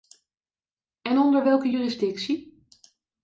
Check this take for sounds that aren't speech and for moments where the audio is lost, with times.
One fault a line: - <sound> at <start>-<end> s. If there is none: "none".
none